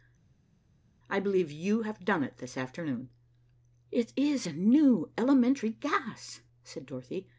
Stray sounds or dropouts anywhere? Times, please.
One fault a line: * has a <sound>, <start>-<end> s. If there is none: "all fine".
all fine